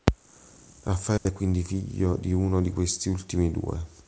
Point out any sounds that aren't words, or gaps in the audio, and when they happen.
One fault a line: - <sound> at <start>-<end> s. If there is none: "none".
- dropout at 1.2-1.3 s